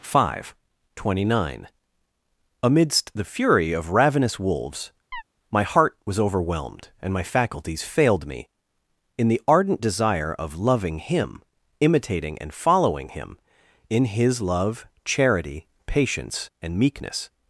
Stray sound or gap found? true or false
true